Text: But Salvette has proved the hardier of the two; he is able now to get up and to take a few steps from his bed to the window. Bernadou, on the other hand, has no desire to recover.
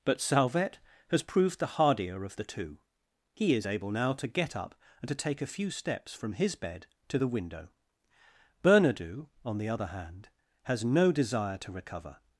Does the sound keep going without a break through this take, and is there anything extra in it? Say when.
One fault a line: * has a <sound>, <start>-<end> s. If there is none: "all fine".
all fine